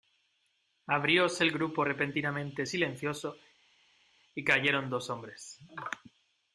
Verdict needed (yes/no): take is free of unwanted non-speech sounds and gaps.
yes